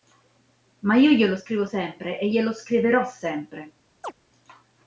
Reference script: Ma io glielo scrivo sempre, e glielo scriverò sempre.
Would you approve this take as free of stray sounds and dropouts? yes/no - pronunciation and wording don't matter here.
no